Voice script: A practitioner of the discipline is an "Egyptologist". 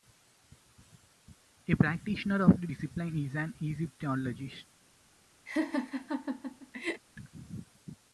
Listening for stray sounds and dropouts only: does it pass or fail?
fail